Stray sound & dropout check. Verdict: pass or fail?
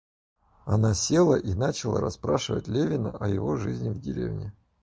pass